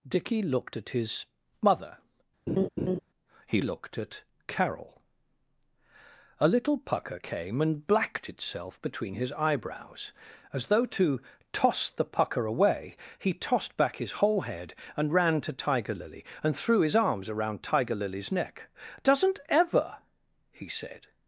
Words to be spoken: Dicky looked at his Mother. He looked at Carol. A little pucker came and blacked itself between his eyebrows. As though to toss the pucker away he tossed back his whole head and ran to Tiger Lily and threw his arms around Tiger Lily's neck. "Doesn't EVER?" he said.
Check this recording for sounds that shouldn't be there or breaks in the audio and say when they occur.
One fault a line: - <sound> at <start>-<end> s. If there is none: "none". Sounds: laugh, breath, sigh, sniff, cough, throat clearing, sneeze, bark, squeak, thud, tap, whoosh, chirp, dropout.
- laugh at 2.5-3.0 s